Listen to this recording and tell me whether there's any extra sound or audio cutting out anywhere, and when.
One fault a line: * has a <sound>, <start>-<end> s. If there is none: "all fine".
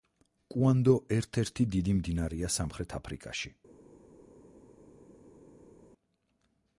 all fine